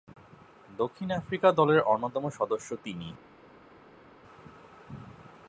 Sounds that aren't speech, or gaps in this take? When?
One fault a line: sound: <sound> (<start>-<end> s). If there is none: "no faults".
no faults